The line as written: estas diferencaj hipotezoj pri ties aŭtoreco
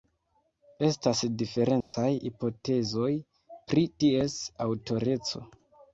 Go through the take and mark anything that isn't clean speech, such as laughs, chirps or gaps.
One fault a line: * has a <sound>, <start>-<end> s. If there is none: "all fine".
* has a dropout, 1.8-1.9 s